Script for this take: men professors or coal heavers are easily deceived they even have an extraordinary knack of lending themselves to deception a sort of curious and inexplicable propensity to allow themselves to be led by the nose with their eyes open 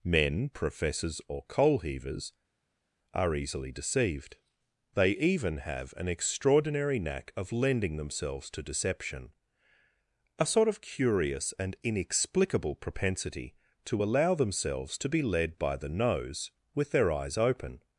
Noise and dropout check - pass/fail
pass